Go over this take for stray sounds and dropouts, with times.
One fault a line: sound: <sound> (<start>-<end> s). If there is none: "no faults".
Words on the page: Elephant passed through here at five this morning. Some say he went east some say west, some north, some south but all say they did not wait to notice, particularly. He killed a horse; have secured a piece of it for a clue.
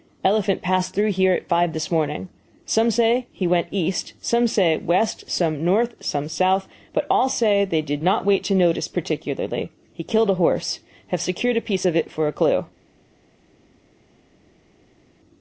no faults